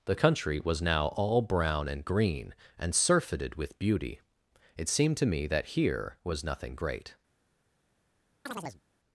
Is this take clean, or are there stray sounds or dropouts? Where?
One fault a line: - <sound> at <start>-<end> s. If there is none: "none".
- chirp at 8.5-8.8 s